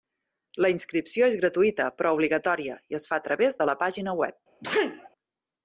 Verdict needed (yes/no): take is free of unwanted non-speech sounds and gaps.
no